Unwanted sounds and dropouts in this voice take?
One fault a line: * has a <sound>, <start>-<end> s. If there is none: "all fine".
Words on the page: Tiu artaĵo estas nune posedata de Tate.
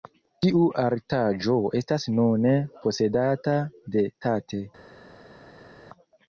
all fine